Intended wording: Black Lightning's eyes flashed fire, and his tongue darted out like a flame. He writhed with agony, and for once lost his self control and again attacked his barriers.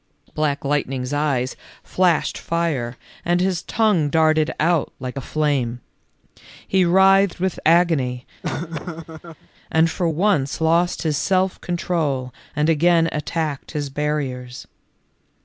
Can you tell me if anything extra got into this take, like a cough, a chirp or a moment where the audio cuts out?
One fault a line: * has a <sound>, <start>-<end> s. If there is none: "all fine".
* has a laugh, 8.4-9.5 s